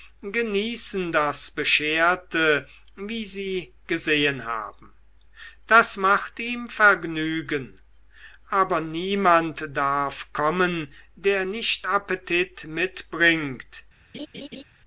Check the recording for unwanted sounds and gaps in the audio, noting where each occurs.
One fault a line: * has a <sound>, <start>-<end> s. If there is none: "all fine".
* has a laugh, 14.1-14.6 s